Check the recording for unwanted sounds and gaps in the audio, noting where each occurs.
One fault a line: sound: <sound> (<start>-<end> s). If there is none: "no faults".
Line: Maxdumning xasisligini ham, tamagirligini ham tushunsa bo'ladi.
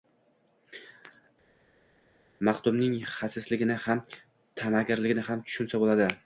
no faults